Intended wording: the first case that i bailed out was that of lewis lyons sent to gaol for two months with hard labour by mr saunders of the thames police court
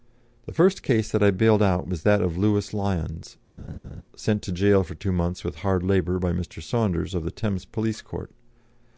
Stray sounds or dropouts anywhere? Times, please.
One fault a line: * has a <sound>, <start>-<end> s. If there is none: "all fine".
* has a laugh, 3.6-4.0 s